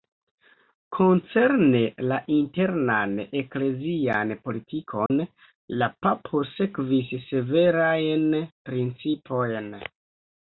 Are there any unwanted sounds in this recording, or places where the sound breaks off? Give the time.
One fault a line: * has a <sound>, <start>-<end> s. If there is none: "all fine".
* has a dropout, 5.1-5.1 s